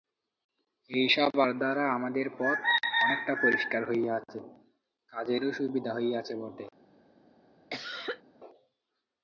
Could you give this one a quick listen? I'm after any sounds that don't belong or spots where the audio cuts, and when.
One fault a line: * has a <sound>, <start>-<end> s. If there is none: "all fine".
* has a cough, 7.7-8.2 s